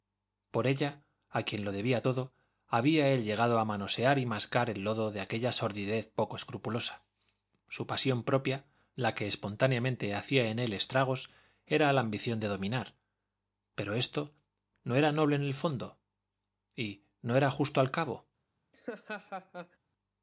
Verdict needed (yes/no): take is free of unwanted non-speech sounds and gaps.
no